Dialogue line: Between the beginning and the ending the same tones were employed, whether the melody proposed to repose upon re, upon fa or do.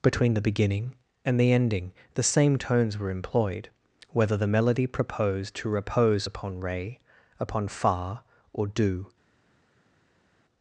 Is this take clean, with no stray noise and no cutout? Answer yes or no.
yes